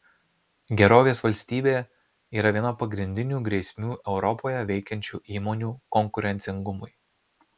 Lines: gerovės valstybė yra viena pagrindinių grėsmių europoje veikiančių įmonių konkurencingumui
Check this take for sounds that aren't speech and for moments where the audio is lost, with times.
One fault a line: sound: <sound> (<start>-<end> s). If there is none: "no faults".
no faults